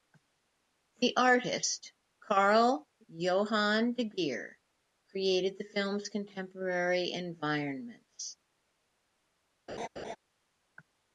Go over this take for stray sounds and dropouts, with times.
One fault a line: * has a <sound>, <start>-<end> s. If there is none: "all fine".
* has a laugh, 9.7-10.2 s